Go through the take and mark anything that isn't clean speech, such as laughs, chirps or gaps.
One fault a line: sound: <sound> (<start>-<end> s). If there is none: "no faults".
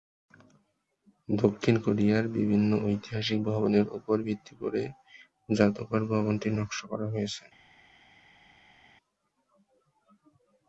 no faults